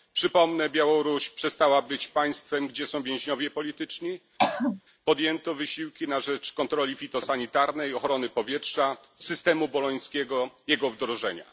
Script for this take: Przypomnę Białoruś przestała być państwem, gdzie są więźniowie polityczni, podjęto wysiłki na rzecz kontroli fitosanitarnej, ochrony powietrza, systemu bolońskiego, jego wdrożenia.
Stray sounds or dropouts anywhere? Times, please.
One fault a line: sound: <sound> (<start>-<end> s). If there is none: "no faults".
sound: throat clearing (4.4-4.8 s)